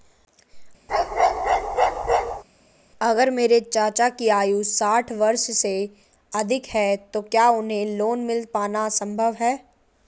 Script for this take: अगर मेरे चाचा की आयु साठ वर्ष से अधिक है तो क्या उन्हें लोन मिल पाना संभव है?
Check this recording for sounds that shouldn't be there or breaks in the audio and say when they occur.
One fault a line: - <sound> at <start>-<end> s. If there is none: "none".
- bark at 0.9-2.4 s